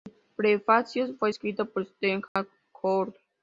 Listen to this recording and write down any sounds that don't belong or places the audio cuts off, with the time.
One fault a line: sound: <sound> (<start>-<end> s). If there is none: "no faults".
sound: dropout (2.3-2.4 s)